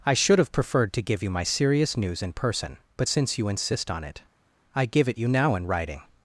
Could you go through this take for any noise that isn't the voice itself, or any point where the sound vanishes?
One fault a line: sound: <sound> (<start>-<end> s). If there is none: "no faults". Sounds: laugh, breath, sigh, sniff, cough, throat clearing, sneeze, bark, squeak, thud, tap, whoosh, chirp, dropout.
no faults